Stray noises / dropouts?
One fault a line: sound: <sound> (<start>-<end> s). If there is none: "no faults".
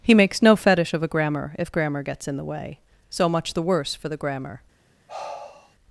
sound: sigh (5.1-5.8 s)